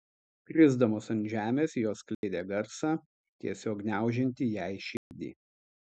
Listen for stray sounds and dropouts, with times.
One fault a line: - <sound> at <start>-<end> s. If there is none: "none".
- dropout at 2.1-2.2 s
- dropout at 5.0-5.1 s